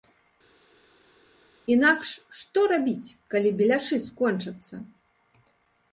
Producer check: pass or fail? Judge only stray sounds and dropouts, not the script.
pass